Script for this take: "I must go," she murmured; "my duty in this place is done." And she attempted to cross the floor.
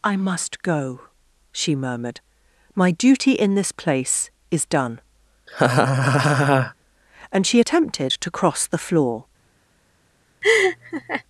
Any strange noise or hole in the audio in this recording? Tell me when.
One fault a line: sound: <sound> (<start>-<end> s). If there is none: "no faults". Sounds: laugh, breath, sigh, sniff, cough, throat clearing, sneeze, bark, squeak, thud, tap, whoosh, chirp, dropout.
sound: laugh (5.5-6.7 s)
sound: laugh (10.4-11.2 s)